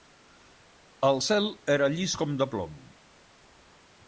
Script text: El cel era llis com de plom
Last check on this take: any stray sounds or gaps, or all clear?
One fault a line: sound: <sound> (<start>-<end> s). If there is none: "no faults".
no faults